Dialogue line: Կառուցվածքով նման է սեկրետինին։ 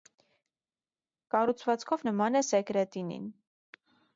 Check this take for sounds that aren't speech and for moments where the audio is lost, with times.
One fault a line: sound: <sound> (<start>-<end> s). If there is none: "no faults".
no faults